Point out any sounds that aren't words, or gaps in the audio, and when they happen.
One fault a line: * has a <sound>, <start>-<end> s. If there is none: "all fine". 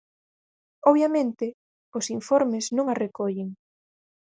all fine